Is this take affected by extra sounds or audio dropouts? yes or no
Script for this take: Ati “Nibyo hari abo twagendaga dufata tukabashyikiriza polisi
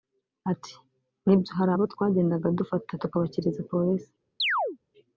yes